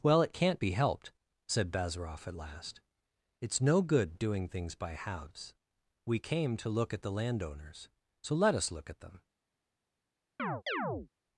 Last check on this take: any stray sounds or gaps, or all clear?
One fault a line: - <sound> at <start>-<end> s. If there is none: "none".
- chirp at 10.4-11.1 s